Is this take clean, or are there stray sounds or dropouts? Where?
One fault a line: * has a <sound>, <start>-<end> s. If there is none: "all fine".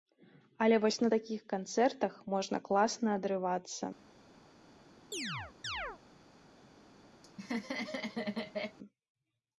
* has a chirp, 5.1-6.0 s
* has a laugh, 7.2-8.8 s